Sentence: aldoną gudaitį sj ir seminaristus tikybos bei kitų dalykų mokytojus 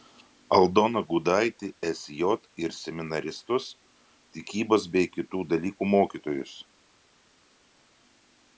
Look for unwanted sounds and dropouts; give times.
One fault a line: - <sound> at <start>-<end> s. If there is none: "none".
none